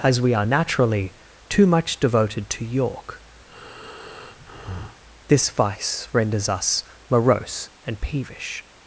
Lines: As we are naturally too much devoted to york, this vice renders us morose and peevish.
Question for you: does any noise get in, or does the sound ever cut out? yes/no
yes